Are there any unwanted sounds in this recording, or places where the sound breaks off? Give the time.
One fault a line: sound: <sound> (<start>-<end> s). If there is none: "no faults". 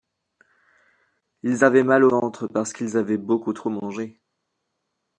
no faults